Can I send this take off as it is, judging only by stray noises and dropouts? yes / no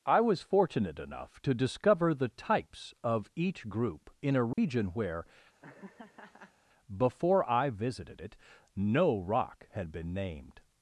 no